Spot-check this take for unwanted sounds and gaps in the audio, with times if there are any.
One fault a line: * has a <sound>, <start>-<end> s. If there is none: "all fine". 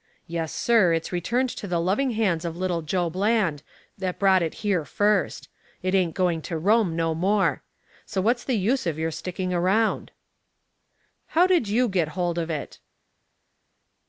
all fine